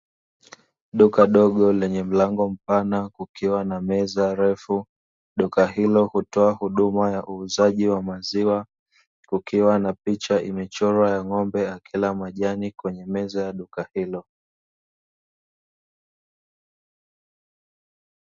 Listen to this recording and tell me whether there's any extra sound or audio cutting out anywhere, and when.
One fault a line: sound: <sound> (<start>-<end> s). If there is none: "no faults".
no faults